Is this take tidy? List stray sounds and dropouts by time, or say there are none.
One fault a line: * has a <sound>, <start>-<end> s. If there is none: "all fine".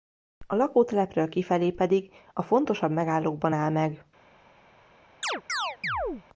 * has a chirp, 5.2-6.2 s